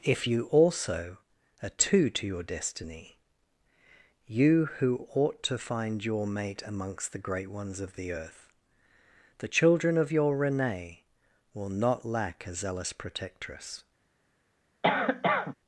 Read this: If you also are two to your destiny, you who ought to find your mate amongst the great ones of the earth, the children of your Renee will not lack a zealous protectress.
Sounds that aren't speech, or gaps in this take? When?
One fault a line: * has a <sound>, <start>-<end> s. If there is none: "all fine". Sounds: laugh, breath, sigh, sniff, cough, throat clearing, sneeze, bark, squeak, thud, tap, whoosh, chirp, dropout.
* has a cough, 14.8-15.5 s